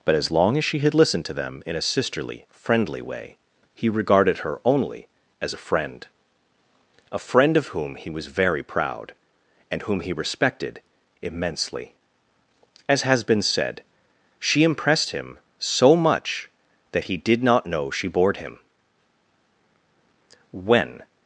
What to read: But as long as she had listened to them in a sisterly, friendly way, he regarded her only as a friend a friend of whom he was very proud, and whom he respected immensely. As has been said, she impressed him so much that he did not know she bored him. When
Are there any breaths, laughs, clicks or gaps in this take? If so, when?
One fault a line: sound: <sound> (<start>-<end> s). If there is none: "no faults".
no faults